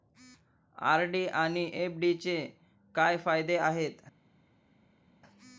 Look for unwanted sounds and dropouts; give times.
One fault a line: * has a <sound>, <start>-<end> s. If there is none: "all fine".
all fine